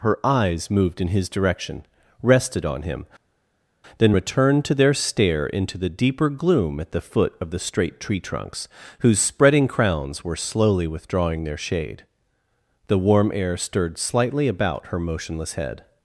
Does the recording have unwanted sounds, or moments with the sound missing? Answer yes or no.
no